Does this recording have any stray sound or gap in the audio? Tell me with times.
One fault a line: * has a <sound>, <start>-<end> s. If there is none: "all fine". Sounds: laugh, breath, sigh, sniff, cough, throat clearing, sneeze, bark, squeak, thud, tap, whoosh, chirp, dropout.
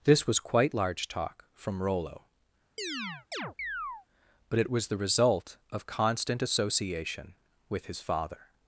* has a chirp, 2.8-4.1 s